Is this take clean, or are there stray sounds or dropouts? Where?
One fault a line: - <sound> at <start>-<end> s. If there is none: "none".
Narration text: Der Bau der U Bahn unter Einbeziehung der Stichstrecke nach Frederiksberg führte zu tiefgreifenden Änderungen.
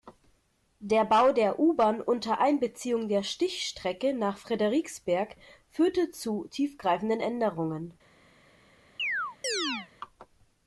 - chirp at 9.0-9.9 s